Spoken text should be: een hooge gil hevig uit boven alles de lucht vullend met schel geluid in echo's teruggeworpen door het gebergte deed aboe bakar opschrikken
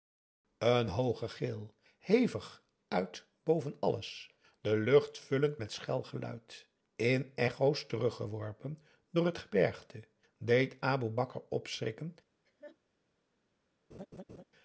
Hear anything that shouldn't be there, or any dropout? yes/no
yes